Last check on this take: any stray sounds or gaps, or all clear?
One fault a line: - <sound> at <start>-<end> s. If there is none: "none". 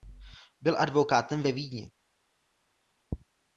none